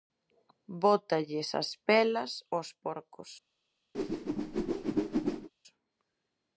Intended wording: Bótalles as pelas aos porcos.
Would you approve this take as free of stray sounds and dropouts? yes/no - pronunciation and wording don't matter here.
no